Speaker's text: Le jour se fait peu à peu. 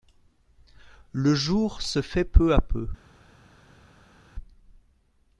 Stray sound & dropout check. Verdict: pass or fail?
pass